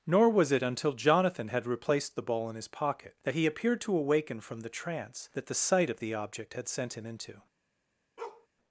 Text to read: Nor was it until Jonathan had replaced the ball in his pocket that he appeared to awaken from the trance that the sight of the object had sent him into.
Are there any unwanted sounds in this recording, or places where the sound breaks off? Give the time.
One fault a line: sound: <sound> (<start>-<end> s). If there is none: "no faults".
sound: bark (8.2-8.5 s)